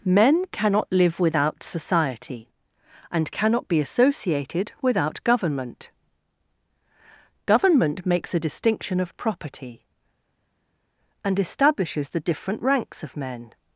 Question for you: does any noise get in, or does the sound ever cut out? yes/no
no